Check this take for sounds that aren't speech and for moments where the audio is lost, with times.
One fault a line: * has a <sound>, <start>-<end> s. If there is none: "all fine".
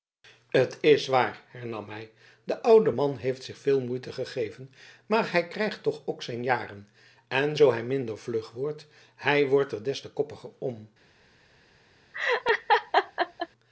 * has a laugh, 12.1-13.5 s